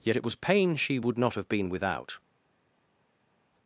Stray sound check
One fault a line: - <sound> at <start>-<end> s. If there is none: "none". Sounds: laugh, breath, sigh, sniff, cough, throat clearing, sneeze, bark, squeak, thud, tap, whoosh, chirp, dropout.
none